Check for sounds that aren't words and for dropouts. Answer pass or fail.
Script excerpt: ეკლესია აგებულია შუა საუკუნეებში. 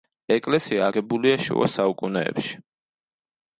pass